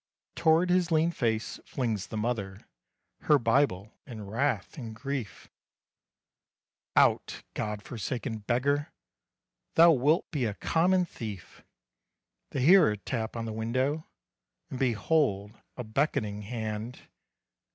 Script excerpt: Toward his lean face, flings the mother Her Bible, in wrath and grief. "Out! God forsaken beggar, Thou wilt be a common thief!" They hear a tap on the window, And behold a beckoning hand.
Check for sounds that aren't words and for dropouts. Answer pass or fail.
pass